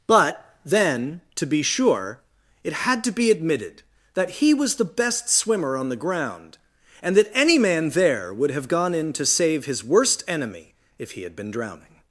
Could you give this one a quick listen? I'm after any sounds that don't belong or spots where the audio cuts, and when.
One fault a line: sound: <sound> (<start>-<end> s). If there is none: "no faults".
no faults